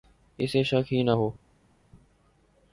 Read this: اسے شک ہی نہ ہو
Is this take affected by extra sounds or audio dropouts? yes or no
no